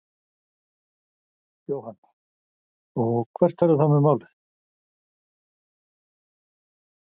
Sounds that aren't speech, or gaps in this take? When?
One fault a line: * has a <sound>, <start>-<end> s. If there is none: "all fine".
all fine